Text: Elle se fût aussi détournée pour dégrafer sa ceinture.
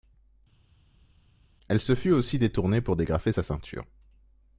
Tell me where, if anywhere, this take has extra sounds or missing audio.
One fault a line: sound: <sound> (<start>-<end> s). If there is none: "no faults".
no faults